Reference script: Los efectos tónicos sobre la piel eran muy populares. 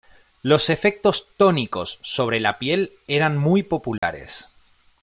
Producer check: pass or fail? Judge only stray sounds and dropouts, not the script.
fail